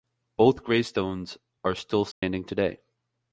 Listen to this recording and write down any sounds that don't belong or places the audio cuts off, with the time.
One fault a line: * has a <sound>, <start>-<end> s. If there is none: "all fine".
* has a dropout, 2.1-2.2 s